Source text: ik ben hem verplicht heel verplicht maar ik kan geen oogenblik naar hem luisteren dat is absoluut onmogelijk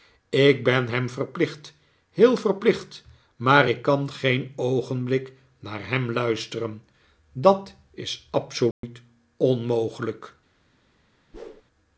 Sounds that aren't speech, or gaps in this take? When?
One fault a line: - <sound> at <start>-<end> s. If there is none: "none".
- dropout at 8.7-8.8 s
- whoosh at 11.3-11.6 s